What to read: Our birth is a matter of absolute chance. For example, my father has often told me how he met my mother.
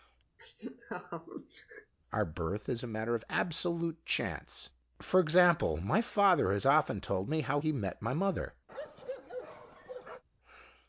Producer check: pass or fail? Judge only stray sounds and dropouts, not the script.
fail